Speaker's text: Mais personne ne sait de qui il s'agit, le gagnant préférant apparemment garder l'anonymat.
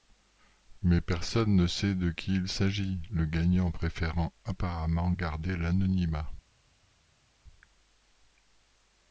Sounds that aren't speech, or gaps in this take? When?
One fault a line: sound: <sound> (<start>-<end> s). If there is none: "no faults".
no faults